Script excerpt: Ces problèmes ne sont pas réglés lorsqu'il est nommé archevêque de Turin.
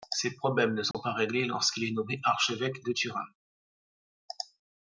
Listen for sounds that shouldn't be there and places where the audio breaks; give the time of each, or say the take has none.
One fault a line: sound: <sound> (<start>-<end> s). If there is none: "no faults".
sound: dropout (0.9-0.9 s)